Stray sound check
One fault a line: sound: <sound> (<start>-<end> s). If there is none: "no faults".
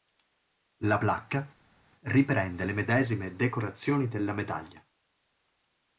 no faults